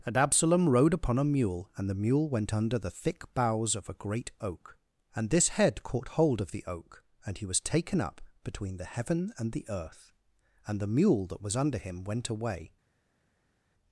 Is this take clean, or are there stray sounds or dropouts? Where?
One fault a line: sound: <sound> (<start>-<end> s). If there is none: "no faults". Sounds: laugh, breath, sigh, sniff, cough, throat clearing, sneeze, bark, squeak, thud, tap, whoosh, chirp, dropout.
no faults